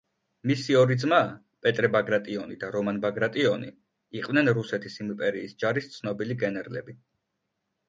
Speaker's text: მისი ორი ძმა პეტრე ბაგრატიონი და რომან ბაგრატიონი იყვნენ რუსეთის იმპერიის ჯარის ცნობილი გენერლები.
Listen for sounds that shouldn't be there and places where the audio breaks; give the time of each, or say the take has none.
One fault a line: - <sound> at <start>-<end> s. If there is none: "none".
none